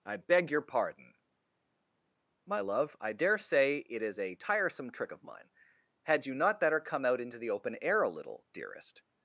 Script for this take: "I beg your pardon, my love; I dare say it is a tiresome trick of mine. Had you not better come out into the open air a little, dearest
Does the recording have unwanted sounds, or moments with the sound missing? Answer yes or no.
no